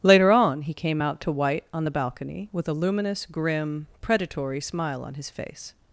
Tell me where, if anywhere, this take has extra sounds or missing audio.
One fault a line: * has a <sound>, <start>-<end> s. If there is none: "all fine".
all fine